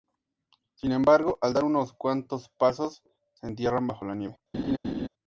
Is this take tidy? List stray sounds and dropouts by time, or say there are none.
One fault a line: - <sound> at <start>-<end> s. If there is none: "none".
- laugh at 4.5-5.1 s